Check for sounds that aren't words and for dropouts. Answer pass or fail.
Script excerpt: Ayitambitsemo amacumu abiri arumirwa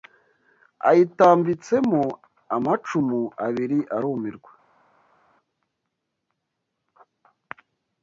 pass